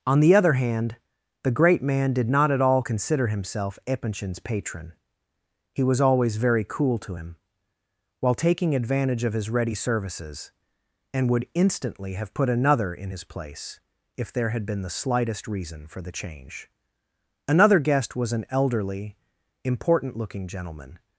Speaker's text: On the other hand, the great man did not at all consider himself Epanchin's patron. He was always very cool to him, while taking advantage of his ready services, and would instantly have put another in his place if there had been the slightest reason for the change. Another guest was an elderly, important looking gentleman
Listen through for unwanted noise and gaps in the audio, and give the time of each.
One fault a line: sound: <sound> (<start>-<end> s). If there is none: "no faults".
no faults